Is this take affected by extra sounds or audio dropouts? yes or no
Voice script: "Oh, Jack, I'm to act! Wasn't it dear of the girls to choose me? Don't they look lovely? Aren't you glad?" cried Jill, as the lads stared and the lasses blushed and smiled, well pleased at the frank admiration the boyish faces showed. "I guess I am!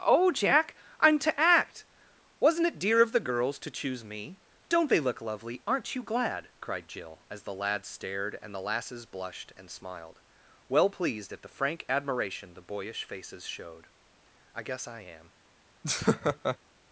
yes